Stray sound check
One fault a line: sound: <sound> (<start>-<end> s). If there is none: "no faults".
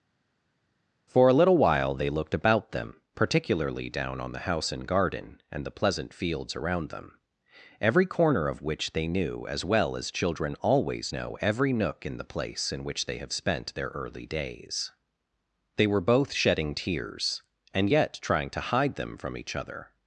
no faults